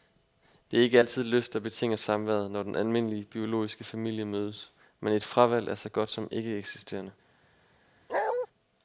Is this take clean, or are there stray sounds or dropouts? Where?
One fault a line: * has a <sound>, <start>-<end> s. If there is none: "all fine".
* has a bark, 8.1-8.5 s